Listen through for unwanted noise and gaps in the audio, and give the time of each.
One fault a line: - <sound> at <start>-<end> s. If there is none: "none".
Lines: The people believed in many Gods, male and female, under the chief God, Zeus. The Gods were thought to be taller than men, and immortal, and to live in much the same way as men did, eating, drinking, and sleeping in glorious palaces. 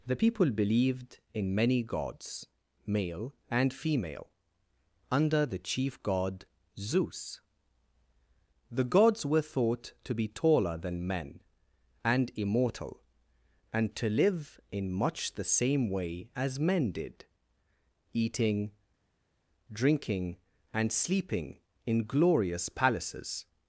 none